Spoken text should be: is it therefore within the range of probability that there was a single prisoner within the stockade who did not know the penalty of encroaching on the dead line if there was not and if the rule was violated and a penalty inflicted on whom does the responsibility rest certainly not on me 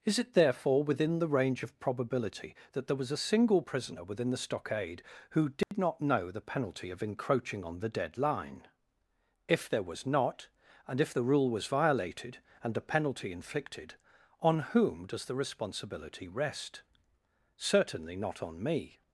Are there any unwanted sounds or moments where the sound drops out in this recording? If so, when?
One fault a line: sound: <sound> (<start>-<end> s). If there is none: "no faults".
sound: dropout (5.6-5.7 s)